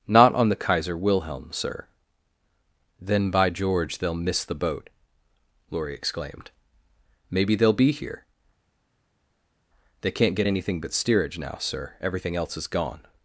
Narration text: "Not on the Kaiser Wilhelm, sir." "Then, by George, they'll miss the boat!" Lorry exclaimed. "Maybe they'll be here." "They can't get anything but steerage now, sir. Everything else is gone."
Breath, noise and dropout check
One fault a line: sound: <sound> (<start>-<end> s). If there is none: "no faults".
no faults